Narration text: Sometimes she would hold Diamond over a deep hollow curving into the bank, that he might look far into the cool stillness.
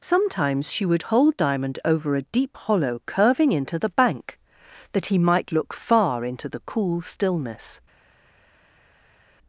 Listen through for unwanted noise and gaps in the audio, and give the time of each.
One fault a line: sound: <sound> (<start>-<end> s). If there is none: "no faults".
no faults